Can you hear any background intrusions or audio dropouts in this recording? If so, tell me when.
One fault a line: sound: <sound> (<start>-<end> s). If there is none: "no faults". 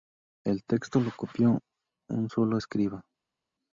no faults